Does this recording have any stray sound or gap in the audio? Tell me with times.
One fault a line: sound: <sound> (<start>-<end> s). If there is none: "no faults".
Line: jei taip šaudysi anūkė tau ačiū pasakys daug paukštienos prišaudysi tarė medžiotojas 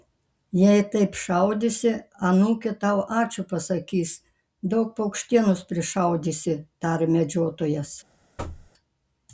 sound: thud (8.4-8.7 s)